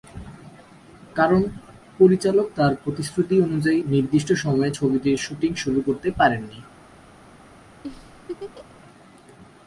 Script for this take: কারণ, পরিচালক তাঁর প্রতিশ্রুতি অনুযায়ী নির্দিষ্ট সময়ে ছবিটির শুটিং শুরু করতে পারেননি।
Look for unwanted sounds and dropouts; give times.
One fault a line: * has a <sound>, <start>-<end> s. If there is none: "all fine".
* has a laugh, 7.8-8.8 s